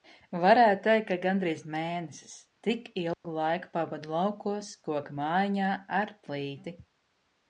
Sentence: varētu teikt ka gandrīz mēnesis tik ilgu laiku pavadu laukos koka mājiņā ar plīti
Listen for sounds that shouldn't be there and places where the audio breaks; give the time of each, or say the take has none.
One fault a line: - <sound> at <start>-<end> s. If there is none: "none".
- dropout at 3.1-3.2 s